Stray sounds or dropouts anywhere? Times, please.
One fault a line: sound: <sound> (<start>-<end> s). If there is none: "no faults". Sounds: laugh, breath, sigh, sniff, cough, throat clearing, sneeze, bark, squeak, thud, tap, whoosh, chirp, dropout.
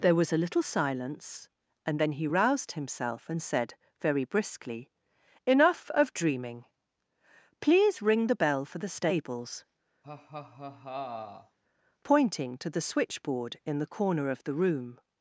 sound: laugh (10.0-11.6 s)